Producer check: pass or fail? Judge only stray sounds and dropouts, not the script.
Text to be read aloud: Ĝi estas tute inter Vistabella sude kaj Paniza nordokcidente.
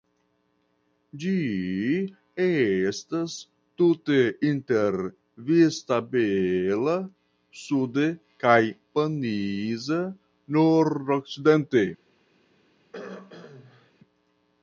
fail